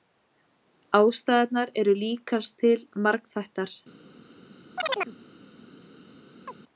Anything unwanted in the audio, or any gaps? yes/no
yes